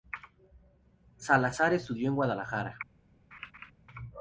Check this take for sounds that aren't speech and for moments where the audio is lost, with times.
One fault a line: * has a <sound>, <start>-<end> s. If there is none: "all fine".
* has a laugh, 3.3-3.7 s